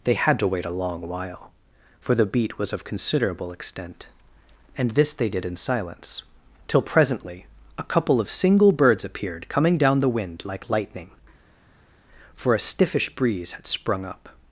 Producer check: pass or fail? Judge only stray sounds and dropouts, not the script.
pass